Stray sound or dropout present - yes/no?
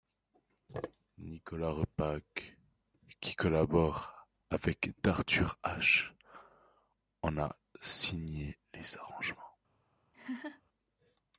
yes